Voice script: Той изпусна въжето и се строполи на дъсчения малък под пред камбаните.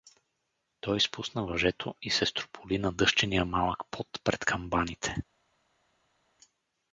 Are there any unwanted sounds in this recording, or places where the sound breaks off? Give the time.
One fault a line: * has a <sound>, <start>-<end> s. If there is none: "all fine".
all fine